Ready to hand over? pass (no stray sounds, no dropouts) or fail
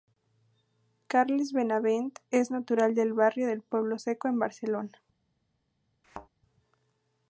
fail